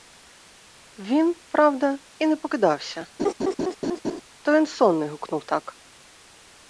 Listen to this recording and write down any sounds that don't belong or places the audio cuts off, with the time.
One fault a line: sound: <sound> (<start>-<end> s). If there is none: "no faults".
sound: laugh (3.2-4.2 s)